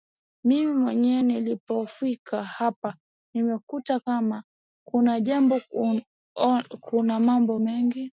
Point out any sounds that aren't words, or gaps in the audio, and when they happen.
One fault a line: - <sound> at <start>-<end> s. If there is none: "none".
none